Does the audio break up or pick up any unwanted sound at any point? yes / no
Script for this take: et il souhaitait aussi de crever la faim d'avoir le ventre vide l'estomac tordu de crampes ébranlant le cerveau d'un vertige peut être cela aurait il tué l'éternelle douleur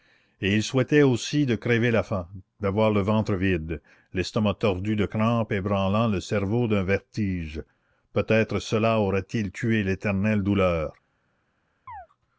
yes